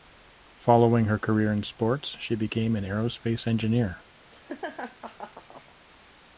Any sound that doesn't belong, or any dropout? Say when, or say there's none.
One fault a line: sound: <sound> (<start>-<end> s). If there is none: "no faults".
sound: laugh (4.3-5.8 s)